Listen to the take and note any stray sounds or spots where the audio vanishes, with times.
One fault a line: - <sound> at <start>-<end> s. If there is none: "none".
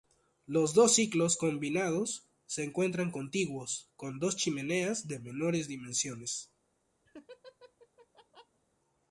- laugh at 7.1-8.6 s